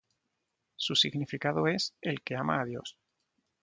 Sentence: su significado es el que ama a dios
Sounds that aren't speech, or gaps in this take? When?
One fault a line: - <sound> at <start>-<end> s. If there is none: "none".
none